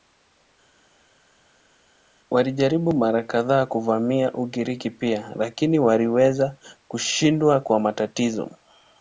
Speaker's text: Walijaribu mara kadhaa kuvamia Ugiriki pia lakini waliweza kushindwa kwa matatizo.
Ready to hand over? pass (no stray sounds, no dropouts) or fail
pass